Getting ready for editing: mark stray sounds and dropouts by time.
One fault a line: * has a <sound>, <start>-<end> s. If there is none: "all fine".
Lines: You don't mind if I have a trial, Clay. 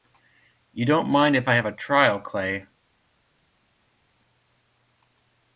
all fine